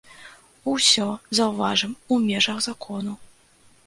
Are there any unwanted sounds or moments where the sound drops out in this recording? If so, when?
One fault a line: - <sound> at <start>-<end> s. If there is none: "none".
none